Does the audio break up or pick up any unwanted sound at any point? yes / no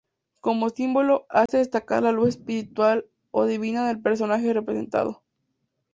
yes